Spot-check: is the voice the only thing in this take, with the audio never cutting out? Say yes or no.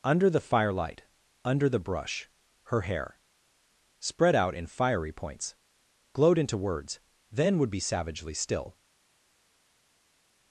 yes